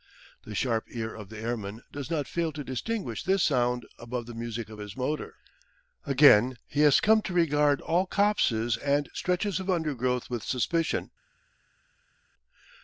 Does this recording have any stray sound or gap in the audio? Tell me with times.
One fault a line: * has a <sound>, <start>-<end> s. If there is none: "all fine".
all fine